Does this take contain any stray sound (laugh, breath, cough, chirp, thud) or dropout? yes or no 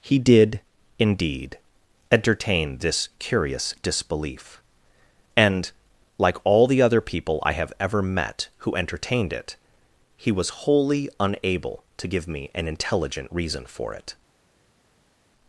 no